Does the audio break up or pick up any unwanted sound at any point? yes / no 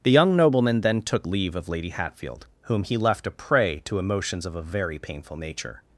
no